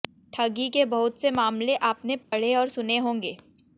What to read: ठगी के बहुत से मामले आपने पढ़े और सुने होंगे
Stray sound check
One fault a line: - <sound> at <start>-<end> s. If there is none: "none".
- dropout at 2.2-2.3 s